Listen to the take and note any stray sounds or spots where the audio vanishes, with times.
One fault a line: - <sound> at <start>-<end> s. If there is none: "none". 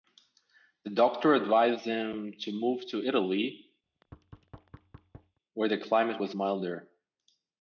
- thud at 3.8-5.4 s